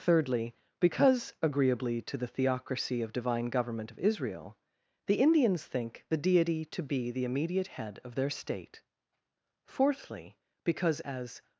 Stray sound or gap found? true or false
false